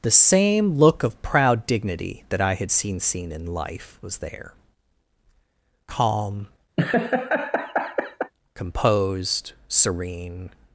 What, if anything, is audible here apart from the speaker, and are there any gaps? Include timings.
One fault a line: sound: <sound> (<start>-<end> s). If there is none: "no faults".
sound: laugh (6.8-8.3 s)